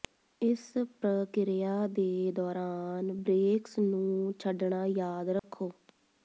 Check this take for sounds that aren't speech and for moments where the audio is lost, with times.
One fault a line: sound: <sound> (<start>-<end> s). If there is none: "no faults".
sound: dropout (5.4-5.4 s)